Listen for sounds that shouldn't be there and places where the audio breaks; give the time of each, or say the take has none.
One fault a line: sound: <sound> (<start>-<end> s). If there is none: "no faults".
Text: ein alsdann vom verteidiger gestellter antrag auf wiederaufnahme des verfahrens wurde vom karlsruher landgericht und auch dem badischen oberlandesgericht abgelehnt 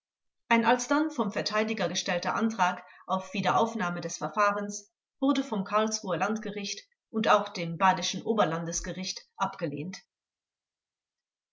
no faults